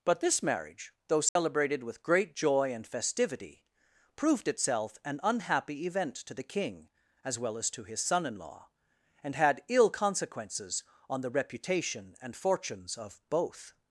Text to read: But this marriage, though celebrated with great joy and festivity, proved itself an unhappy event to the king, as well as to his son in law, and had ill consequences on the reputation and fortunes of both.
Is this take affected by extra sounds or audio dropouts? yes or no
yes